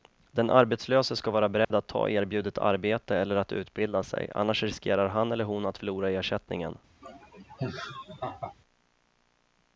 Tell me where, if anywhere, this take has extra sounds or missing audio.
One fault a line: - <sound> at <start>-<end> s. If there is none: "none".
- dropout at 1.6-1.7 s
- laugh at 7.0-8.5 s